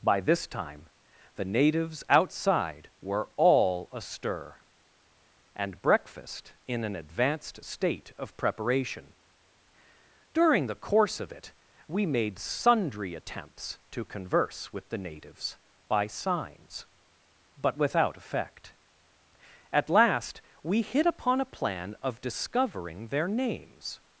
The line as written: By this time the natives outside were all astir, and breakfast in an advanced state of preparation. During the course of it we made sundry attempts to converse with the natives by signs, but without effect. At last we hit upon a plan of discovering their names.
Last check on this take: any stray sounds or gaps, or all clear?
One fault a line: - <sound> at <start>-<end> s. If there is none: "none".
none